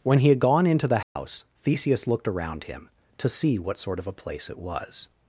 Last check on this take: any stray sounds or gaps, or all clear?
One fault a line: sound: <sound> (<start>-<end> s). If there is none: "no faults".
sound: dropout (1.0-1.2 s)